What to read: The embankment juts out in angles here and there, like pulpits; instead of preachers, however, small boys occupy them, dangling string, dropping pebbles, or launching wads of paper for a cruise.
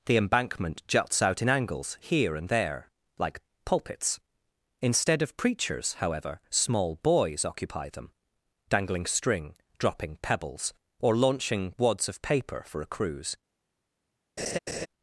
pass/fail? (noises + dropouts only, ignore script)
fail